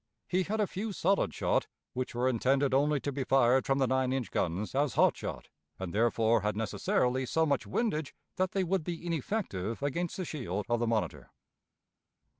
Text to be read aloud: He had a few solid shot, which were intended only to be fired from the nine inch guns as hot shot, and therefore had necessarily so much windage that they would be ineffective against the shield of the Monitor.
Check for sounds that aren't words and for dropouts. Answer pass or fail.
pass